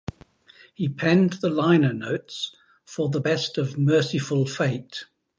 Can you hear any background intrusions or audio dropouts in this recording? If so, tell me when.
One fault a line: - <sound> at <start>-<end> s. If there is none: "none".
none